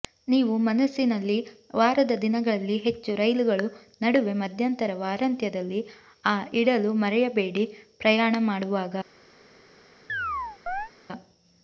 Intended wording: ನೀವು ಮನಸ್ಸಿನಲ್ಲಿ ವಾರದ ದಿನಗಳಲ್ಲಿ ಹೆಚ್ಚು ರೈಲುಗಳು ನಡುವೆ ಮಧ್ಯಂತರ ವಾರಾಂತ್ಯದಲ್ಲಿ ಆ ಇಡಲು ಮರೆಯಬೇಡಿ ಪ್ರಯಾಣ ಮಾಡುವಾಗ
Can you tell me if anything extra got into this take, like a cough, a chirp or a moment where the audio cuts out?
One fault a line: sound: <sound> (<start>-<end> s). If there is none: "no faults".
sound: chirp (10.1-10.9 s)